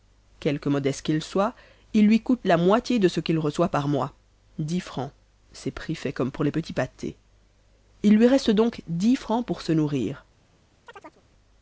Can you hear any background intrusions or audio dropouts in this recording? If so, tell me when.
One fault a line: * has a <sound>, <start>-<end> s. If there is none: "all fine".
* has a chirp, 10.9-11.2 s